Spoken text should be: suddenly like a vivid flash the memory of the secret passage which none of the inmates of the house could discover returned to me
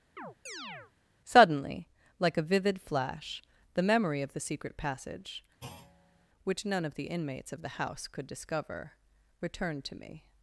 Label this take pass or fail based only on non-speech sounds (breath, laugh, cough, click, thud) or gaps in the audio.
fail